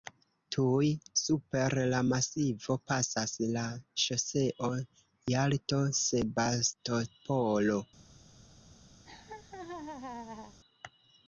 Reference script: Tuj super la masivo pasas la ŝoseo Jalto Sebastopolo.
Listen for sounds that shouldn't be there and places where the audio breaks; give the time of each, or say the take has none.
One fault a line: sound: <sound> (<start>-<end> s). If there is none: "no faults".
sound: laugh (9.0-10.6 s)